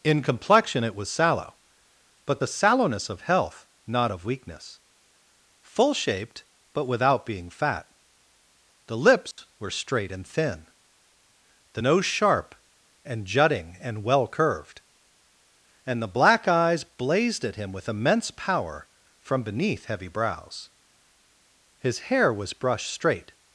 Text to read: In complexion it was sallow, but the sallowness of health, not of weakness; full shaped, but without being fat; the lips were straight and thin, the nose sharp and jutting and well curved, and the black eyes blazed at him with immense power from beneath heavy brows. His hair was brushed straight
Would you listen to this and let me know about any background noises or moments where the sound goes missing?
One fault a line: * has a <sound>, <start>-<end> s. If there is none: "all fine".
* has a dropout, 9.3-9.4 s